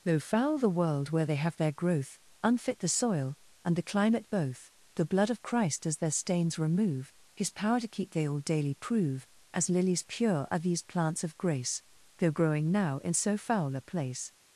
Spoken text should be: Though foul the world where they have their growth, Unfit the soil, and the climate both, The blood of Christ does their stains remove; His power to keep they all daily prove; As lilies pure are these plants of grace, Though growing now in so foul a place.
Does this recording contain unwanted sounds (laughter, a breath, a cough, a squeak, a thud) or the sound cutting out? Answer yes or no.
no